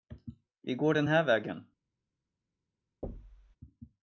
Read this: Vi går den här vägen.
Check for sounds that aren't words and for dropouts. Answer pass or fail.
fail